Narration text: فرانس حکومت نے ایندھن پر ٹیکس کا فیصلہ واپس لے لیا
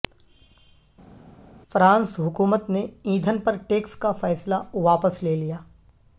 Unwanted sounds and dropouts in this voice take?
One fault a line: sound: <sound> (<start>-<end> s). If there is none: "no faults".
no faults